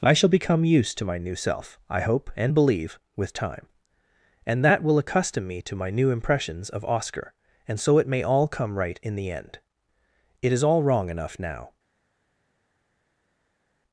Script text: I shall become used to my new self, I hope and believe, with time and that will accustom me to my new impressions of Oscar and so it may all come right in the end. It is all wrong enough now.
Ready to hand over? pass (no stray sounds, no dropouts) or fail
pass